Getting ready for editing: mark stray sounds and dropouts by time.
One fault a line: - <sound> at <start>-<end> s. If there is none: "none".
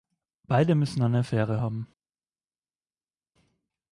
none